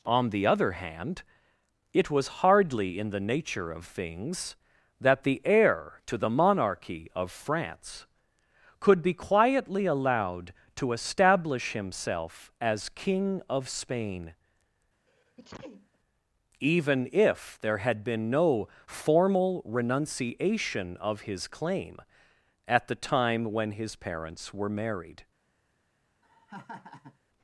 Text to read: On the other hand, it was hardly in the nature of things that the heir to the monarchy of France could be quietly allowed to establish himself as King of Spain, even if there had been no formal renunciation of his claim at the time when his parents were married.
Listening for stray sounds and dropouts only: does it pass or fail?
fail